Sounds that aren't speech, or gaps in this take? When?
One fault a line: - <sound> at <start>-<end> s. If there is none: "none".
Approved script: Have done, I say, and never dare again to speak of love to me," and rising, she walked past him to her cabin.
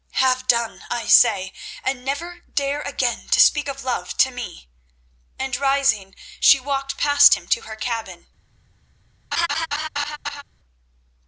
- laugh at 9.3-10.4 s